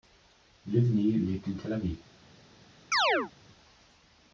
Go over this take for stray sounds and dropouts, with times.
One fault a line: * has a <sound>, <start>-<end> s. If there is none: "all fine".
* has a chirp, 2.9-3.3 s